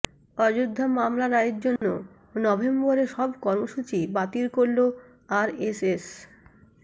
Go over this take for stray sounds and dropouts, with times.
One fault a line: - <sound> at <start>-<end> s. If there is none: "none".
- dropout at 1.8-1.8 s